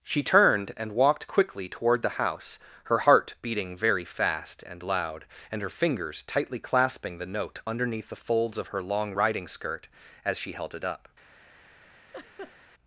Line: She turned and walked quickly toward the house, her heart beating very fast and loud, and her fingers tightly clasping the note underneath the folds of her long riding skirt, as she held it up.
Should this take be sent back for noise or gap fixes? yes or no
yes